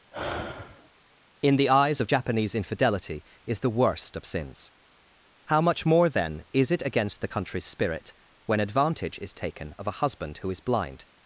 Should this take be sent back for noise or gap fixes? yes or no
yes